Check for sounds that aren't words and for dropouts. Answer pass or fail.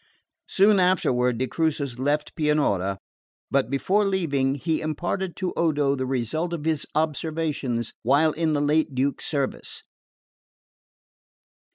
pass